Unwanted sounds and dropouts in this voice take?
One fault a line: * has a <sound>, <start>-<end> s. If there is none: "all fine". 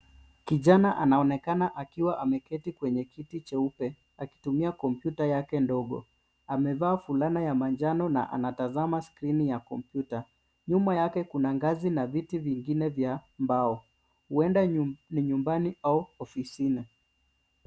all fine